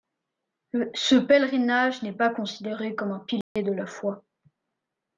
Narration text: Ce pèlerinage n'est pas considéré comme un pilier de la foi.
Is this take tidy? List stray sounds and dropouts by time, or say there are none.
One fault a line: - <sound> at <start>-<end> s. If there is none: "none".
- dropout at 3.4-3.6 s